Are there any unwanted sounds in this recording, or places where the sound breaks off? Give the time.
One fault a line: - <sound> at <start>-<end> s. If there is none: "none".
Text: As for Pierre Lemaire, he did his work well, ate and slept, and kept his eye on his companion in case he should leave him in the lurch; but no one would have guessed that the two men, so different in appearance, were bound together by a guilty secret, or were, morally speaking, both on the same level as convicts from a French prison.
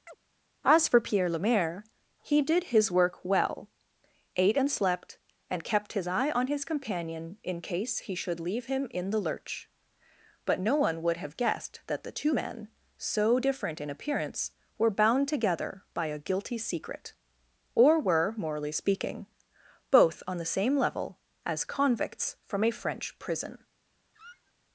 - chirp at 0.1-0.2 s
- squeak at 24.1-24.5 s